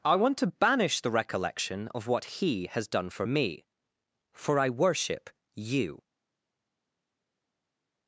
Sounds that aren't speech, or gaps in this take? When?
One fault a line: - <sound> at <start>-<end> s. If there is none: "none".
none